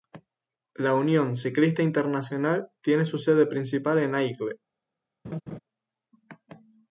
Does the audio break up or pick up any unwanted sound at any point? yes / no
yes